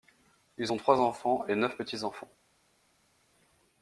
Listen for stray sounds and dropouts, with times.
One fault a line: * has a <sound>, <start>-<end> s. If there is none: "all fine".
all fine